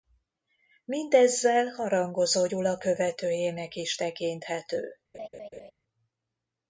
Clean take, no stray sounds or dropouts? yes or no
no